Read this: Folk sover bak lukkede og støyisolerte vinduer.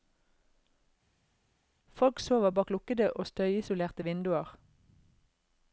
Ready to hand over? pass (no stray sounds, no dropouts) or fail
pass